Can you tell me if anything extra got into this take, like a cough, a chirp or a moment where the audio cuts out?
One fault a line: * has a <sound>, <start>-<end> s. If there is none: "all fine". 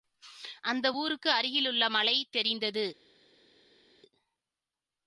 all fine